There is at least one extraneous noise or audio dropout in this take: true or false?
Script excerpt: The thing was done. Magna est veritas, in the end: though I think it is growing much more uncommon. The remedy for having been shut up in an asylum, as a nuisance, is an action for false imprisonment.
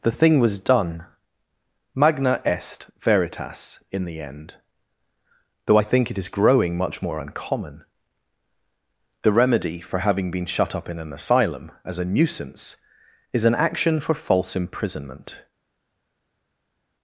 false